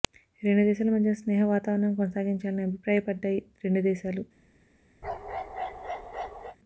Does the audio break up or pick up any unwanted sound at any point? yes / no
yes